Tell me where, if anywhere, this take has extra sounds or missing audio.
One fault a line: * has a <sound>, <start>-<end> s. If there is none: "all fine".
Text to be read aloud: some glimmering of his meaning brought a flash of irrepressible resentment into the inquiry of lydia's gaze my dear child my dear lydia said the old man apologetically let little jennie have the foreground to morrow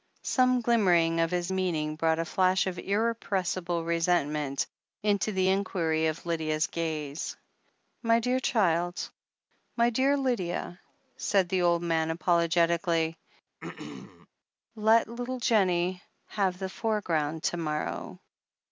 * has a throat clearing, 13.6-14.3 s